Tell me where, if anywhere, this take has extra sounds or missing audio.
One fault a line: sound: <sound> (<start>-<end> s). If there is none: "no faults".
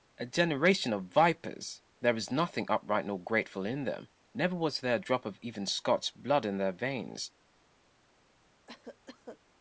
sound: cough (8.7-9.4 s)